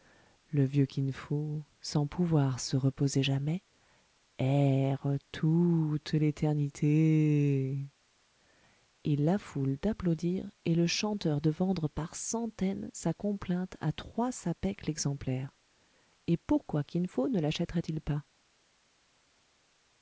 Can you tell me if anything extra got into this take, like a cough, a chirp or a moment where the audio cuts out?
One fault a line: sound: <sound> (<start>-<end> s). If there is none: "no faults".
no faults